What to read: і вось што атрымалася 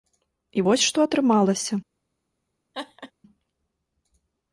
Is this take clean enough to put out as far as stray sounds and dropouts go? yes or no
no